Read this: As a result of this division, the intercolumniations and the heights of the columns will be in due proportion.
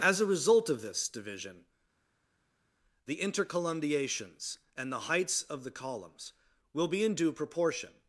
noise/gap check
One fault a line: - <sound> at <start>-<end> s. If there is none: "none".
none